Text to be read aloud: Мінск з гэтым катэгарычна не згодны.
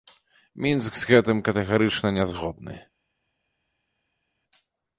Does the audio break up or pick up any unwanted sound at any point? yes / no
no